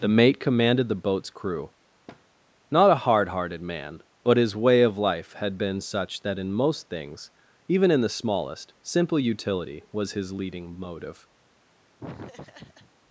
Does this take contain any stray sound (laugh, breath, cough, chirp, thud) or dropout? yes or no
yes